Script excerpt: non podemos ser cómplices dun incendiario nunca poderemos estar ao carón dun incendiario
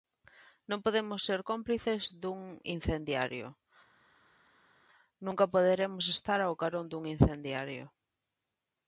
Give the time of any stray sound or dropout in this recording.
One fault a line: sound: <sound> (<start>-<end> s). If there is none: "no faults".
no faults